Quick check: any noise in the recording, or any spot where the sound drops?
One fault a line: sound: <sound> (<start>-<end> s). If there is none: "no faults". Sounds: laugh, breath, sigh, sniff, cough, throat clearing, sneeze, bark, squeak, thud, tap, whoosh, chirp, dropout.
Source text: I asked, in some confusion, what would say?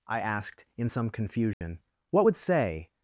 sound: dropout (1.5-1.6 s)